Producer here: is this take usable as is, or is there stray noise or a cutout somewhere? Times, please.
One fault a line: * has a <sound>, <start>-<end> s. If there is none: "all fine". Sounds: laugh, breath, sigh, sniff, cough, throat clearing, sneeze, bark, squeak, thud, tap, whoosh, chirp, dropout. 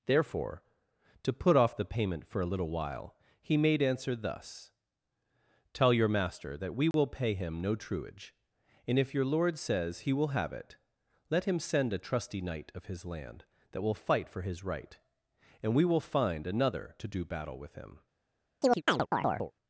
* has a dropout, 6.9-6.9 s
* has a chirp, 18.6-19.5 s